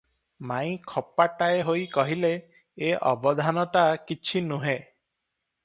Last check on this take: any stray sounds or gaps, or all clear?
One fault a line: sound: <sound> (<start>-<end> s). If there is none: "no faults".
no faults